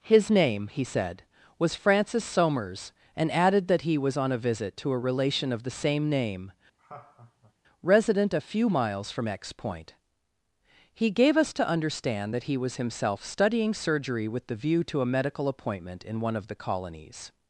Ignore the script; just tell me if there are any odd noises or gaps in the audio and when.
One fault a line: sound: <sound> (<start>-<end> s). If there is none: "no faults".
sound: laugh (6.8-7.5 s)